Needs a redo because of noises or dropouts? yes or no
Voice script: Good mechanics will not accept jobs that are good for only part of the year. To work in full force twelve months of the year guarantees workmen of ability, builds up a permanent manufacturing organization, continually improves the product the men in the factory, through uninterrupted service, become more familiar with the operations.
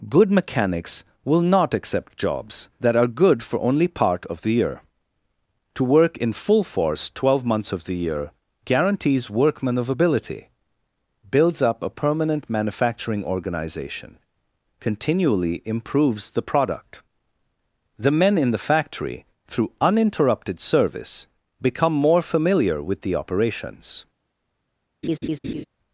yes